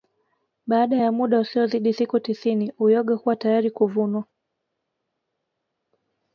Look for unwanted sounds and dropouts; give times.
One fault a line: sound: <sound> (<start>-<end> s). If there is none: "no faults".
no faults